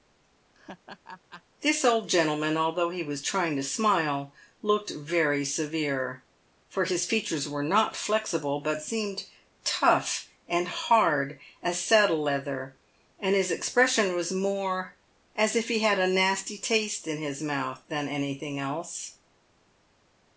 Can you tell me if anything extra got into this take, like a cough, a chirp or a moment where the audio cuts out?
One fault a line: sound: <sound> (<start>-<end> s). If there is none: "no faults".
sound: laugh (0.5-1.4 s)